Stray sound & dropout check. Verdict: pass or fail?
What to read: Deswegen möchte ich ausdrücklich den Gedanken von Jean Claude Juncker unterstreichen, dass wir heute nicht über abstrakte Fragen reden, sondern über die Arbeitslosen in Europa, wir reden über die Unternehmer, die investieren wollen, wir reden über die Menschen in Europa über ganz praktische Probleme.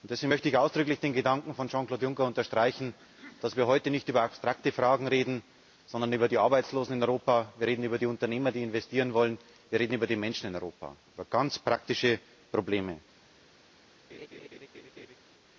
fail